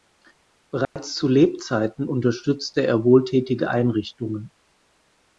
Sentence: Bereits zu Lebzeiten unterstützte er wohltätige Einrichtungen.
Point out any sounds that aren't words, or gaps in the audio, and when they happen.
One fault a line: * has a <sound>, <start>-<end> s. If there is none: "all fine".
* has a dropout, 0.8-1.0 s